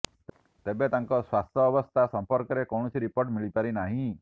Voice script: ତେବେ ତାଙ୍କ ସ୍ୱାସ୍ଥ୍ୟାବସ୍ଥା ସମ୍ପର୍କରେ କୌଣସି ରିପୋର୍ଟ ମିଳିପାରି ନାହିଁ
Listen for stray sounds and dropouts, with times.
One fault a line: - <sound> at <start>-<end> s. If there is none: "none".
none